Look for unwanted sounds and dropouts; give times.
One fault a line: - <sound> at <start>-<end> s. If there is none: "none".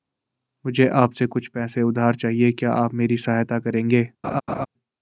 - laugh at 4.2-4.7 s